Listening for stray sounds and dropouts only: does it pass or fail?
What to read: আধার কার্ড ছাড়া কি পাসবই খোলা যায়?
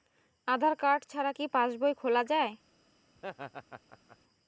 fail